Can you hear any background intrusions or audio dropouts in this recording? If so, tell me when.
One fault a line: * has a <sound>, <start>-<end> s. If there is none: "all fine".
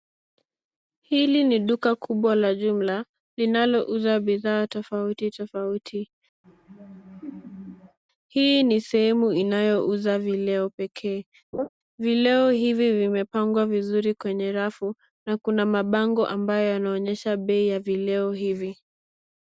* has a laugh, 6.4-8.0 s
* has a laugh, 11.5-11.7 s